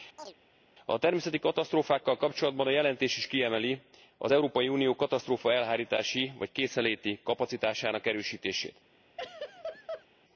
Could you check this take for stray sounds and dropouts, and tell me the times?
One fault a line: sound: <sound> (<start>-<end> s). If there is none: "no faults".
sound: chirp (0.2-0.3 s)
sound: laugh (9.2-10.1 s)